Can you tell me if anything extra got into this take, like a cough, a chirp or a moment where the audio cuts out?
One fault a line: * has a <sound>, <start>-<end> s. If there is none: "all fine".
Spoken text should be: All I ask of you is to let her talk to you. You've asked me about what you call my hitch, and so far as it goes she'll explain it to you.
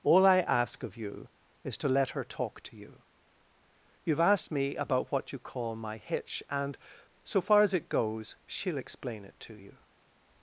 all fine